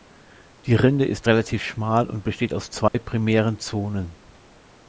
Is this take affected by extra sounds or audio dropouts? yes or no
yes